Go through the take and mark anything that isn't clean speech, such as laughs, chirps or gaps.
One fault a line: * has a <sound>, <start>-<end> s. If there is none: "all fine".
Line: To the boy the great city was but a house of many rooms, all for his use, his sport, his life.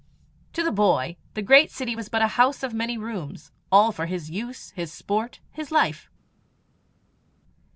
all fine